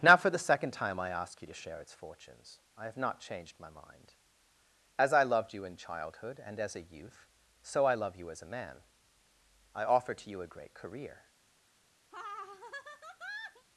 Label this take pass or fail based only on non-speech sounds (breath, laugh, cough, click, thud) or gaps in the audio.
fail